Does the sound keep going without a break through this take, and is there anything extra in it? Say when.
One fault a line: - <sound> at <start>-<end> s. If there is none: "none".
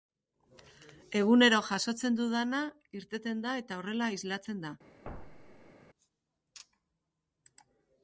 - thud at 5.0-5.7 s